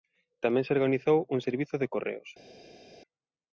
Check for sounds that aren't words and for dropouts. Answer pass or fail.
pass